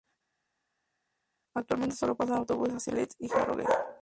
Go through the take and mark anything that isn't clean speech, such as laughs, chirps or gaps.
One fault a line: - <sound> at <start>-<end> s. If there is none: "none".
none